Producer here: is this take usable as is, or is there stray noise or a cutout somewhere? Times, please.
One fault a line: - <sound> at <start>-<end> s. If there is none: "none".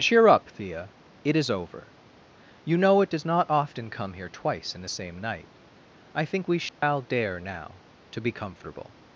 - dropout at 6.7-6.8 s